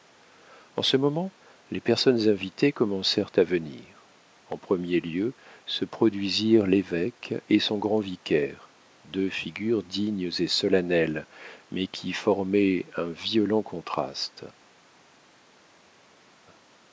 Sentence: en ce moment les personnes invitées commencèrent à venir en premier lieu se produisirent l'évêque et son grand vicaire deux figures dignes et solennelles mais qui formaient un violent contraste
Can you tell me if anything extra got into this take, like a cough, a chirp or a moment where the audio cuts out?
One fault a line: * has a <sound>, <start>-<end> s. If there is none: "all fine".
all fine